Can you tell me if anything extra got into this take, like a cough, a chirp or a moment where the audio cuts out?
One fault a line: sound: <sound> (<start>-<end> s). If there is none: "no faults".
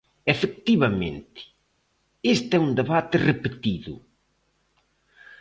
no faults